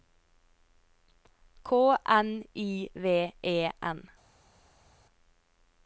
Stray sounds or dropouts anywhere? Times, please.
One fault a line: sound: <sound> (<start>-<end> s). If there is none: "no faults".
no faults